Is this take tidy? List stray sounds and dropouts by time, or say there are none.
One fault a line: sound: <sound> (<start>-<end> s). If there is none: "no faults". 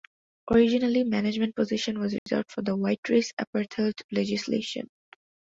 sound: dropout (2.2-2.3 s)